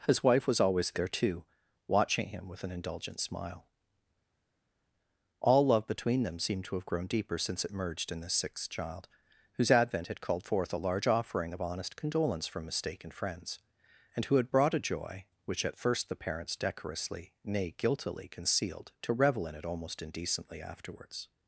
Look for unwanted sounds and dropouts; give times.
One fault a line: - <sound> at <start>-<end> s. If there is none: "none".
none